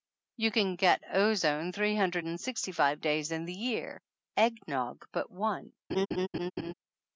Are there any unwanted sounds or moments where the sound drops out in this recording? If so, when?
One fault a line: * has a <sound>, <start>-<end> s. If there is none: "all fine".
* has a laugh, 5.9-6.7 s